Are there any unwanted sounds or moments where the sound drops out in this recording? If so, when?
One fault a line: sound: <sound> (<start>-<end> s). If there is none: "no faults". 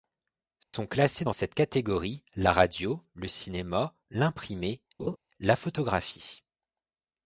sound: dropout (0.6-0.7 s)
sound: laugh (5.0-5.2 s)